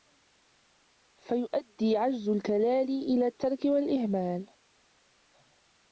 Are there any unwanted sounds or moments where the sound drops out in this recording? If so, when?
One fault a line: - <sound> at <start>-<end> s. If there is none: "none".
none